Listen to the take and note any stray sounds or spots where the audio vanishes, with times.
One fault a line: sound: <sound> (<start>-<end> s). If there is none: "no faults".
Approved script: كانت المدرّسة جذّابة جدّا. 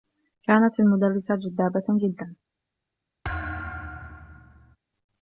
sound: thud (3.2-4.8 s)